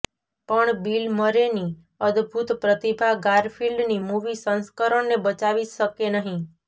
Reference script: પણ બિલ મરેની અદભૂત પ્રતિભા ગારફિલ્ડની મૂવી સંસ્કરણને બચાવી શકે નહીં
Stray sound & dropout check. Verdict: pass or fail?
pass